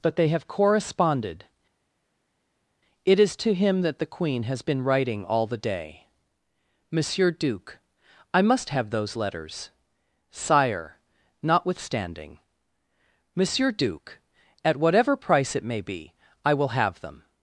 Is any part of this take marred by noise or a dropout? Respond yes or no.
no